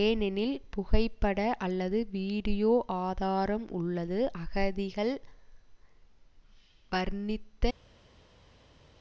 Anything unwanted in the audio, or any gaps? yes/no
no